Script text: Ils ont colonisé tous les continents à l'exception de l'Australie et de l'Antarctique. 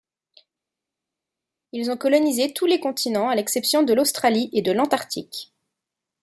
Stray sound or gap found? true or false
false